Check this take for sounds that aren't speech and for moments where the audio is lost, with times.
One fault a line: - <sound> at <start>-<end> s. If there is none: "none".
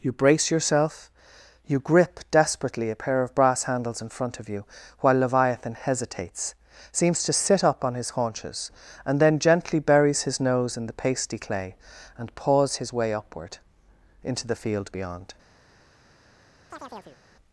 - chirp at 16.7-17.2 s